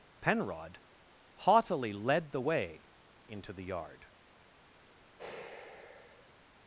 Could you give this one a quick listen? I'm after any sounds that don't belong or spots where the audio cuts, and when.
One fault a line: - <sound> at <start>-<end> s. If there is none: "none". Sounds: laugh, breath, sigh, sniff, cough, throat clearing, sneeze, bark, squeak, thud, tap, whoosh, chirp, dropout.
- sigh at 5.2-6.4 s